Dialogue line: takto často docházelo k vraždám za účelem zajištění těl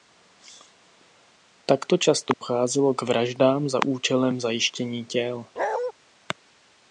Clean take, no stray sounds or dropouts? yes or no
no